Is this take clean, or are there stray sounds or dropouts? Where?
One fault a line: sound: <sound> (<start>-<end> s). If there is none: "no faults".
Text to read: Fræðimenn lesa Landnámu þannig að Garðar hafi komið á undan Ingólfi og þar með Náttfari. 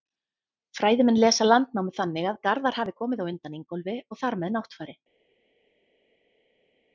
no faults